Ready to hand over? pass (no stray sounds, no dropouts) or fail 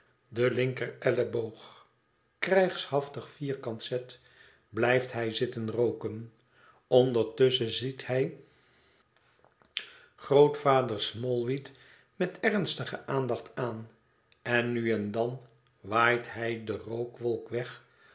pass